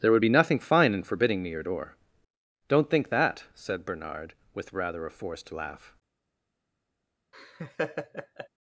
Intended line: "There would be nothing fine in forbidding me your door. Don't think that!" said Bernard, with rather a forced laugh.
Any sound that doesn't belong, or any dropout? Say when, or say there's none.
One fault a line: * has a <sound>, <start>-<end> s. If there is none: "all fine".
* has a laugh, 7.3-8.5 s